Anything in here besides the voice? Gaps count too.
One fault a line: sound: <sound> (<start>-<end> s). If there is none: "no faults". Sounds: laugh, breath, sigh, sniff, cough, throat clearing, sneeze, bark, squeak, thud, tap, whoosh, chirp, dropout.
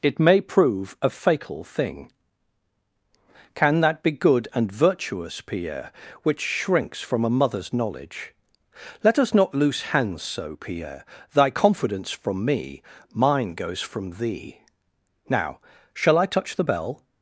no faults